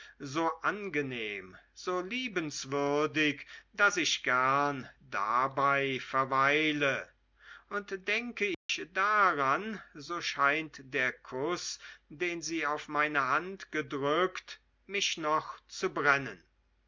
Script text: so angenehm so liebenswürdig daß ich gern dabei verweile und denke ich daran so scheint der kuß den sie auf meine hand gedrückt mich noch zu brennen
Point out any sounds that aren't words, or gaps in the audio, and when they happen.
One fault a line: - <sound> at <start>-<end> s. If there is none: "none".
- dropout at 8.5-8.7 s